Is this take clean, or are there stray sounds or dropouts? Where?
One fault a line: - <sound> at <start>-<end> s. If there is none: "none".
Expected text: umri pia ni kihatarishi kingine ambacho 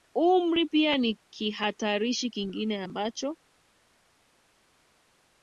none